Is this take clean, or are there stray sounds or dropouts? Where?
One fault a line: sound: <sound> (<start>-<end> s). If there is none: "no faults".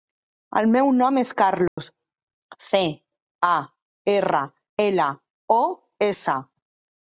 sound: dropout (1.7-1.8 s)